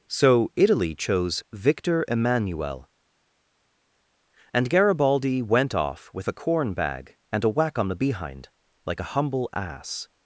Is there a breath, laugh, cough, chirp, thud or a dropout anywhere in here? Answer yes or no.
no